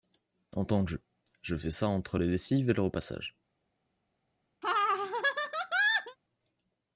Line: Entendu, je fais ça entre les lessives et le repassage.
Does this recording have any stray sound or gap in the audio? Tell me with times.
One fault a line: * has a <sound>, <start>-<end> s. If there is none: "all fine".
* has a laugh, 4.6-6.2 s